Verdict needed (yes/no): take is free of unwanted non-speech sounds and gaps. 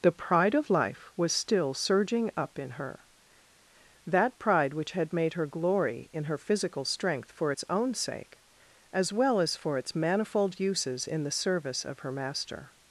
yes